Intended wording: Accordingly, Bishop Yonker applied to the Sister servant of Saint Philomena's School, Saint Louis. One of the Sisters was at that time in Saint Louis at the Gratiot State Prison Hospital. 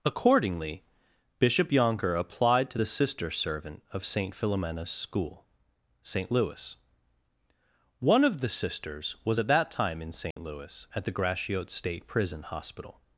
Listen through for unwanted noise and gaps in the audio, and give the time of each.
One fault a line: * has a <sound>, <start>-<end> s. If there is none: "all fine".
* has a dropout, 10.3-10.4 s